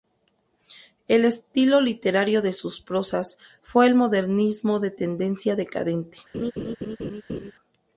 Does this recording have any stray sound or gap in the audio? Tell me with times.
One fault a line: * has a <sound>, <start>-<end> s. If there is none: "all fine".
* has a laugh, 6.3-7.5 s